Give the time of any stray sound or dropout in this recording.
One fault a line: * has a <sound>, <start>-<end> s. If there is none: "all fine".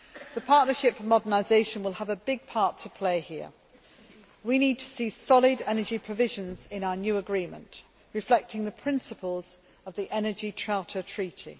all fine